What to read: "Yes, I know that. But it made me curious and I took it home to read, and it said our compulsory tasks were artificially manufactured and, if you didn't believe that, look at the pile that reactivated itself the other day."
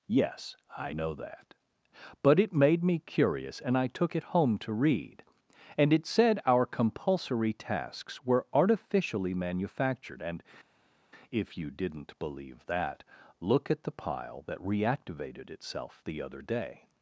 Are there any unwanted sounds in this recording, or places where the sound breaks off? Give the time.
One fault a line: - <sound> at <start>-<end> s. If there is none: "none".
none